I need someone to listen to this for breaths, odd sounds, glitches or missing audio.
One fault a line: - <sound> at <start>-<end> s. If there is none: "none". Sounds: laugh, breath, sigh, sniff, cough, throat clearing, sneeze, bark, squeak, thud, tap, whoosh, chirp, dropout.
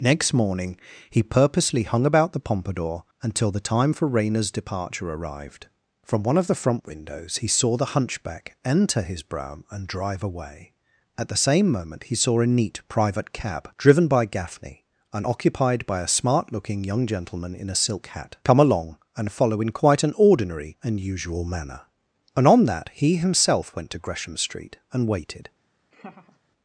- laugh at 25.9-26.4 s